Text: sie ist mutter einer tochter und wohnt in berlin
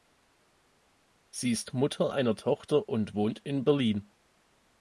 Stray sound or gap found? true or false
false